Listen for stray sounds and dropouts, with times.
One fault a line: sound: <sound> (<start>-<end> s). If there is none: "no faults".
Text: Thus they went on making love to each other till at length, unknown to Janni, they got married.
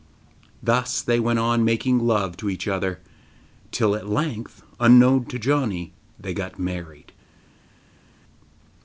no faults